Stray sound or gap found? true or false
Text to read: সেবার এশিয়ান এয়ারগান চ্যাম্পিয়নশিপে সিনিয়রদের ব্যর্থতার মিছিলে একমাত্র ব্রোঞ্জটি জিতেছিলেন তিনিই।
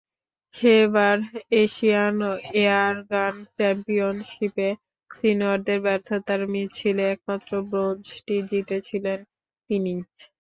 false